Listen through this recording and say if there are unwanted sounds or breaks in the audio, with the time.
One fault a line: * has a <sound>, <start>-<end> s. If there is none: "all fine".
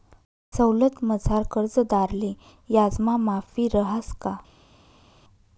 all fine